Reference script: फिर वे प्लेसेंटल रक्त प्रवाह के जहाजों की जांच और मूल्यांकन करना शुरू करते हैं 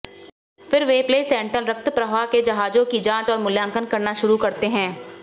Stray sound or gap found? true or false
false